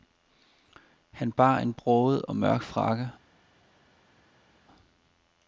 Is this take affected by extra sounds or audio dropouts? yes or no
no